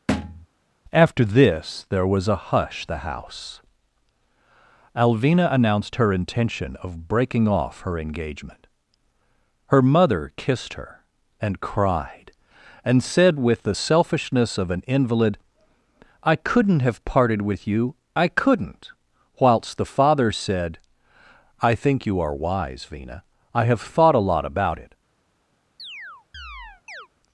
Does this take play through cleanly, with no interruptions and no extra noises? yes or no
no